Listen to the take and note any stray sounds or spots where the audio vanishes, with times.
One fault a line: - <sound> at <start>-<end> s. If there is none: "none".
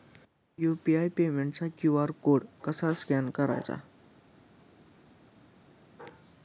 none